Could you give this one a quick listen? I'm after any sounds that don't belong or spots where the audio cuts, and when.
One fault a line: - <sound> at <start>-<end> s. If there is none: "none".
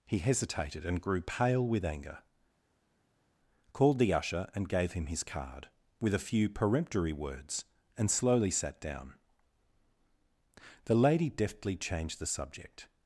none